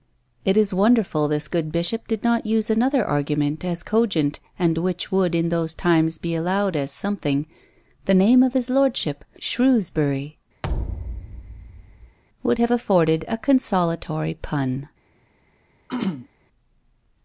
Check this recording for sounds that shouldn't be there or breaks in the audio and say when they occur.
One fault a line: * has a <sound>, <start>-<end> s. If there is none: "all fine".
* has a thud, 10.6-12.2 s
* has a throat clearing, 15.9-16.3 s